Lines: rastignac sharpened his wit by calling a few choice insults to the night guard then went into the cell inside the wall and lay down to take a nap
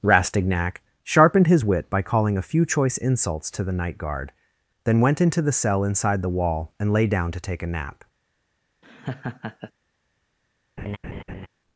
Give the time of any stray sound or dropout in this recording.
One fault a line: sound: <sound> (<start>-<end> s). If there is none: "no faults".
sound: laugh (8.8-9.7 s)
sound: laugh (10.8-11.5 s)